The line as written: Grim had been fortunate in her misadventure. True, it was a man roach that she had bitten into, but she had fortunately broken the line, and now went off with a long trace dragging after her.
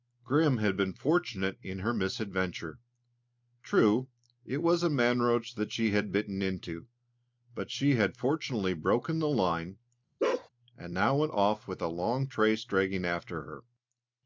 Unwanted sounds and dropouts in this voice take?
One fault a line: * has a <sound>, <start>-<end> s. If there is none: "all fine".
* has a bark, 10.2-10.5 s